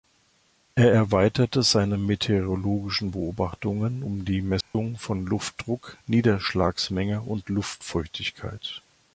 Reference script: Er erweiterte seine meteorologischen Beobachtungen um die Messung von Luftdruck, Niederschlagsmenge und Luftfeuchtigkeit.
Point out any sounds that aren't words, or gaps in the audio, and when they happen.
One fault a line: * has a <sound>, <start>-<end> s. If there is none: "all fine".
* has a dropout, 4.6-4.7 s